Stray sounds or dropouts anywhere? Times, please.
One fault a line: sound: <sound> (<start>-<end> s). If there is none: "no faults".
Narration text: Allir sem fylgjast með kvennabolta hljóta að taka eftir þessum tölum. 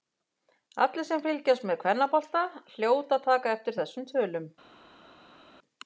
no faults